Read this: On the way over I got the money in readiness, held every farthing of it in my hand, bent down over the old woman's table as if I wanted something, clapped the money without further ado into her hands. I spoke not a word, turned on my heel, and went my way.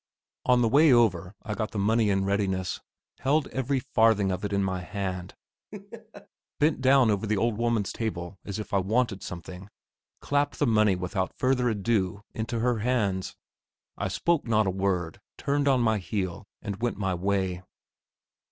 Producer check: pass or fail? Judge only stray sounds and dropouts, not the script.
fail